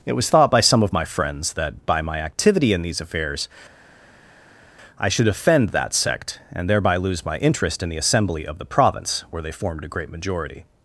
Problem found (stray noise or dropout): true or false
false